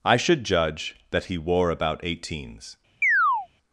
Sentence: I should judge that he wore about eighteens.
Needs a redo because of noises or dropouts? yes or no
yes